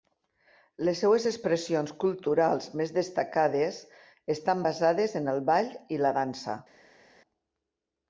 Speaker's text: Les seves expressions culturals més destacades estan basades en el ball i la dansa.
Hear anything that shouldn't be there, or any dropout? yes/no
no